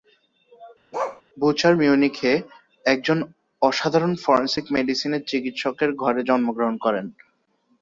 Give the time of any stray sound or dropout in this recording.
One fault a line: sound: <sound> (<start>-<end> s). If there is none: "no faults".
sound: bark (0.9-1.2 s)